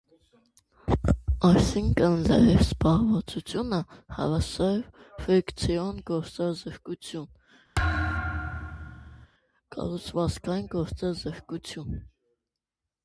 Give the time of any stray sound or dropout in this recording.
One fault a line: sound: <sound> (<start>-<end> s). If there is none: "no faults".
sound: thud (7.7-9.3 s)